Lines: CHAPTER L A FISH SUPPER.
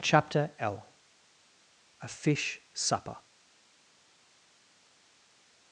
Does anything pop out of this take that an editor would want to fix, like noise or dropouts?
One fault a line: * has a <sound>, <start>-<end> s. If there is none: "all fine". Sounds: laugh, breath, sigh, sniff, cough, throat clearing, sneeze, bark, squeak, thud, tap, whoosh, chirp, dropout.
all fine